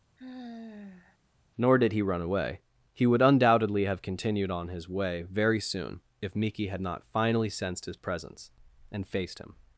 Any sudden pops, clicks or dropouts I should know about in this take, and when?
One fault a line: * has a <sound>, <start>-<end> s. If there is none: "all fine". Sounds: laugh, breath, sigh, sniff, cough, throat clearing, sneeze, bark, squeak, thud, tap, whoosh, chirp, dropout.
* has a sigh, 0.2-1.2 s